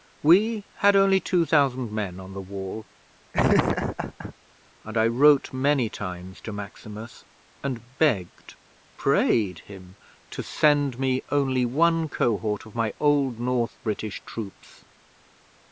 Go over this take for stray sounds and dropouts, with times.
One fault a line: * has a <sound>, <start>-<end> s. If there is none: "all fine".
* has a laugh, 3.3-4.3 s